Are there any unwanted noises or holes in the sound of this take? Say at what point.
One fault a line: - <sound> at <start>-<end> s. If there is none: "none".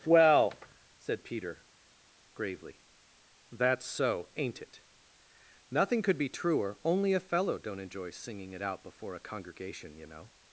none